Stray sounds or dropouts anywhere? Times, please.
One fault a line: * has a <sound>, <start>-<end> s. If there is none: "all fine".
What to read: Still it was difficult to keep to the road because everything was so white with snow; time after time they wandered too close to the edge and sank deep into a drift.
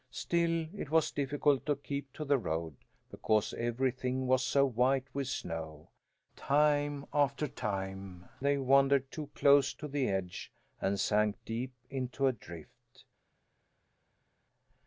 all fine